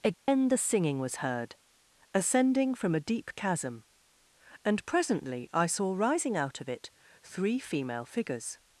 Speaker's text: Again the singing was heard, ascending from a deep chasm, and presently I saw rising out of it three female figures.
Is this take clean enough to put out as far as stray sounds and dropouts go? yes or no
no